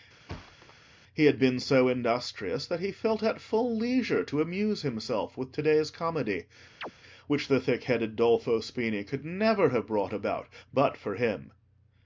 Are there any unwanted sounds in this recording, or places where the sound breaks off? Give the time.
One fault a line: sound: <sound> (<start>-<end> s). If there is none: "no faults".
sound: thud (0.3-0.7 s)
sound: chirp (6.8-6.9 s)